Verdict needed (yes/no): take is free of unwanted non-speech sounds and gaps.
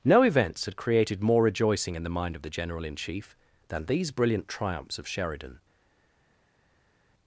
yes